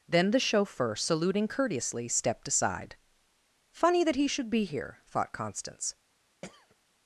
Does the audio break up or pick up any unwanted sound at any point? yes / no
yes